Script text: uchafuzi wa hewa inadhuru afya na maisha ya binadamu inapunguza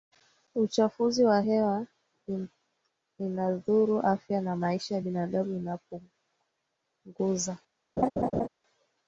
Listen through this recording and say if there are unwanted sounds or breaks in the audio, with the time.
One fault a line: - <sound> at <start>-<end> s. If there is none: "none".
- laugh at 8.0-8.5 s